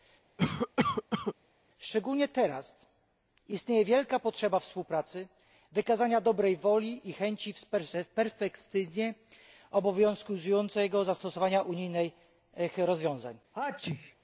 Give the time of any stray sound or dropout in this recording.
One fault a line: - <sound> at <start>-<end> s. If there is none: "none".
- cough at 0.4-1.3 s
- sneeze at 13.5-14.2 s